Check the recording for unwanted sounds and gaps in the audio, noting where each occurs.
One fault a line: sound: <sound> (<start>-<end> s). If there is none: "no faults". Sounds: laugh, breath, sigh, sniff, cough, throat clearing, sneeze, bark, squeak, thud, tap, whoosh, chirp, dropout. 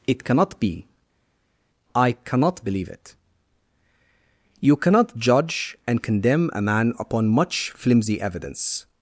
no faults